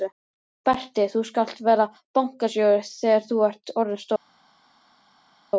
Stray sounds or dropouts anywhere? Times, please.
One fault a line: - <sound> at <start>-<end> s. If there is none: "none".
none